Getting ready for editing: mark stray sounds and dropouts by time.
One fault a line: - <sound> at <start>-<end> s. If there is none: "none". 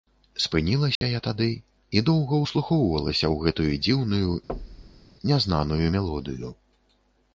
- dropout at 1.0-1.0 s
- thud at 4.5-5.1 s